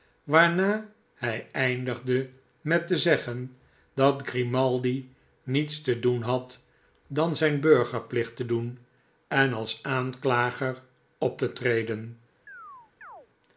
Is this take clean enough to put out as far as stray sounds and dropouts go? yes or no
no